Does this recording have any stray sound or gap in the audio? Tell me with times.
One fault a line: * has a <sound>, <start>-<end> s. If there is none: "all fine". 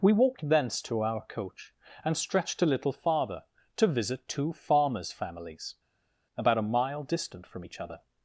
all fine